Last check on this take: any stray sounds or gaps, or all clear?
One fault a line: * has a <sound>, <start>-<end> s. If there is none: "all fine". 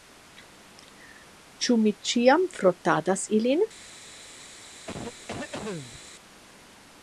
* has a cough, 4.9-6.1 s